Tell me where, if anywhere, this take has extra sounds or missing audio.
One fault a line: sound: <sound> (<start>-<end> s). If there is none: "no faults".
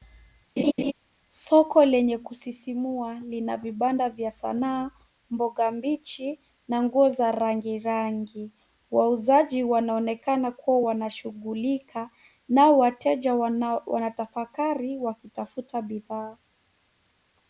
sound: laugh (0.6-0.9 s)